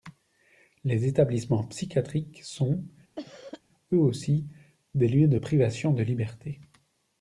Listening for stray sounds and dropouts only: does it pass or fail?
fail